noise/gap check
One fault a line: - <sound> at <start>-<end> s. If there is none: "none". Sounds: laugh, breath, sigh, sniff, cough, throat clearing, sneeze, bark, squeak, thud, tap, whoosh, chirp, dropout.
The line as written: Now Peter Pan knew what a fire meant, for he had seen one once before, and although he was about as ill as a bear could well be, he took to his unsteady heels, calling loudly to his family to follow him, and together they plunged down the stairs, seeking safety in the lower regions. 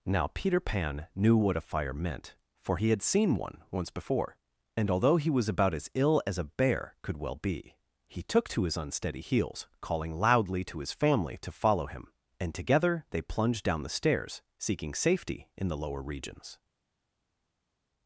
none